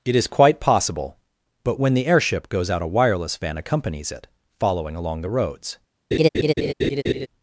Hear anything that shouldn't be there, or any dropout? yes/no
yes